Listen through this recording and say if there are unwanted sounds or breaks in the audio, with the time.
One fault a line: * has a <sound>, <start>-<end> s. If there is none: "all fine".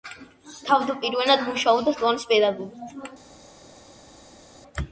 all fine